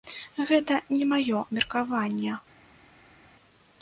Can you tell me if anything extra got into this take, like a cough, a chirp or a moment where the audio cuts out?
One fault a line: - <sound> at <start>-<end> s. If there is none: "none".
none